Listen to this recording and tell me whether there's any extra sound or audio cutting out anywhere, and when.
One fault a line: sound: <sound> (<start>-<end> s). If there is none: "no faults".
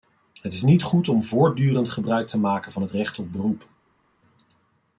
no faults